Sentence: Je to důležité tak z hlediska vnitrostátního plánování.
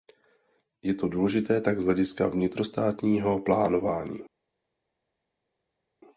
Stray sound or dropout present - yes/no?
no